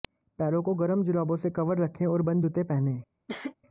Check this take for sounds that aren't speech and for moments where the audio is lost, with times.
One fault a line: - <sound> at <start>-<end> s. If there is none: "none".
- cough at 3.3-3.5 s